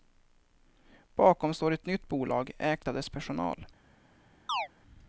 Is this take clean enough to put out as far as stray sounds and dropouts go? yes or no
no